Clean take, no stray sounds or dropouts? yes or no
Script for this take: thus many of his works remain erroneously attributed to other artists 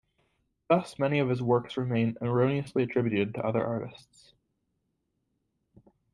yes